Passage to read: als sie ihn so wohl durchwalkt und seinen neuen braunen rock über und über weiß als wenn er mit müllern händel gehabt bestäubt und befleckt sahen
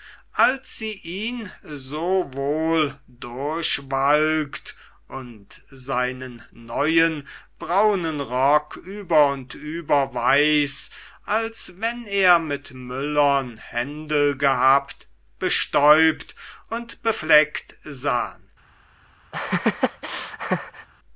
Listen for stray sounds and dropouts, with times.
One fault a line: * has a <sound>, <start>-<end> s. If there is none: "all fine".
* has a laugh, 19.3-20.9 s